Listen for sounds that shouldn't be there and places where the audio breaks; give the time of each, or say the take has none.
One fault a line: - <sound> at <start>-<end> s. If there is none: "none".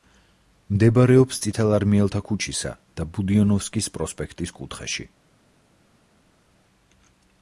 none